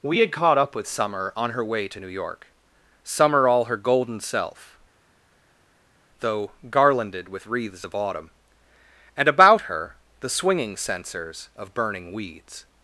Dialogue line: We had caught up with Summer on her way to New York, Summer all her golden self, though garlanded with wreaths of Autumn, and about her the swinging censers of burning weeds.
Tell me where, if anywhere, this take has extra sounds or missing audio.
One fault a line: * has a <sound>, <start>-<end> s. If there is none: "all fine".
all fine